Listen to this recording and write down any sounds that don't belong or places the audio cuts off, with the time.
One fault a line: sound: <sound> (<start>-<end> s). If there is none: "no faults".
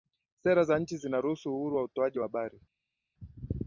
no faults